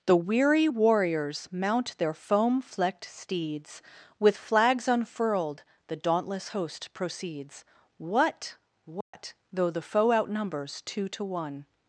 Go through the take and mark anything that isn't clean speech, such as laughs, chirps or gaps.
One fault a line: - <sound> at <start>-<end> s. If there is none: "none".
- dropout at 9.0-9.1 s